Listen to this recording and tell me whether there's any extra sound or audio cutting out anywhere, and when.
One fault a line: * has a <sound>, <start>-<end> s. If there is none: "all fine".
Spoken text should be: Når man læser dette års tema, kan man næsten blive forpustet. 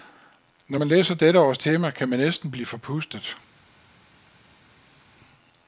all fine